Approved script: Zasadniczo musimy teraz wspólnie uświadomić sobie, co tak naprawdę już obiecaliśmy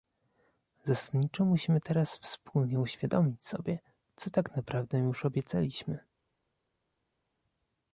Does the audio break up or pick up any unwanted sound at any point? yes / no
no